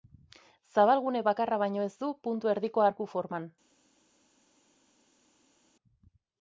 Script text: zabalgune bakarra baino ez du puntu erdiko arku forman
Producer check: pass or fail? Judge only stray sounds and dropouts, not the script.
pass